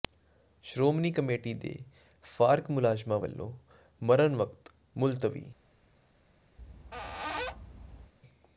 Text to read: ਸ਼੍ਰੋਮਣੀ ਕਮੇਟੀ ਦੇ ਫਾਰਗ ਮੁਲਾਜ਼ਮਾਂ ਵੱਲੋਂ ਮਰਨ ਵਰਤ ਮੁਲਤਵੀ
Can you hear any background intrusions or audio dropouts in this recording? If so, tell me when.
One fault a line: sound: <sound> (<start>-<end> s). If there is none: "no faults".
sound: squeak (6.6-8.1 s)